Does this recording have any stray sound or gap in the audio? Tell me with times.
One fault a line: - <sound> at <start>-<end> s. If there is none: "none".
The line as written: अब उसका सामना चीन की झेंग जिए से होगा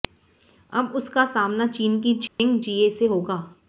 - dropout at 2.3-2.4 s